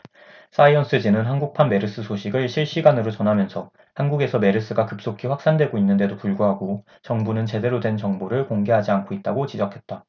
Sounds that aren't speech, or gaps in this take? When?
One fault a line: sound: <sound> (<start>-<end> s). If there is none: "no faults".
no faults